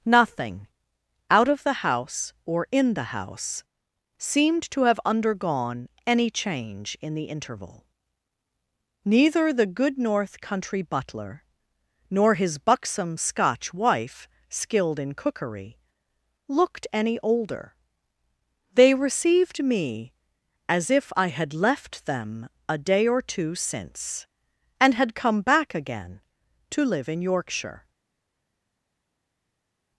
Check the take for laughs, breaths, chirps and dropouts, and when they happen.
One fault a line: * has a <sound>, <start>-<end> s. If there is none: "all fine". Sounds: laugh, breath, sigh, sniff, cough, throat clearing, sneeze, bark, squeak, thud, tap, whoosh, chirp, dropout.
all fine